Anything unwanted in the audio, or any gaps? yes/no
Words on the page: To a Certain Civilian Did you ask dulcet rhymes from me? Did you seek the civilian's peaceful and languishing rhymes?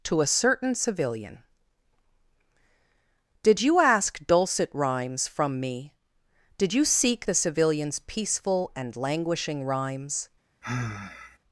yes